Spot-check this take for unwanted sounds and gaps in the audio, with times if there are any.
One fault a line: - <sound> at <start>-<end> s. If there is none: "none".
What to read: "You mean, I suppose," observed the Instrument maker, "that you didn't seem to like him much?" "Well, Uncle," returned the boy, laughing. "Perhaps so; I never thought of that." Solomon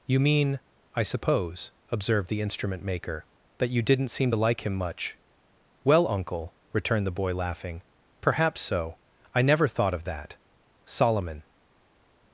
none